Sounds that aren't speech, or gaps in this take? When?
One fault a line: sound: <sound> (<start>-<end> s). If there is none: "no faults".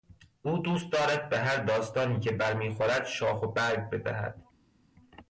no faults